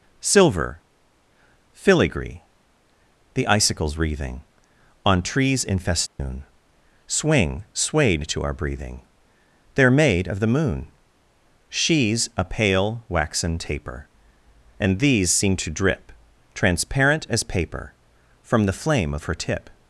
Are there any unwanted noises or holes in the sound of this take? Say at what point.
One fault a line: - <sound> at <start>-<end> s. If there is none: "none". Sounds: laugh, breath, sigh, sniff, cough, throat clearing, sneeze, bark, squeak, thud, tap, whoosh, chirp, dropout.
- dropout at 6.1-6.2 s